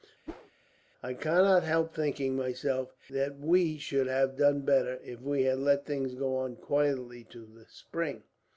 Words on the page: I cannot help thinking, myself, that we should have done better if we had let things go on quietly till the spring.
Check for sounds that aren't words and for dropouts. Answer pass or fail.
fail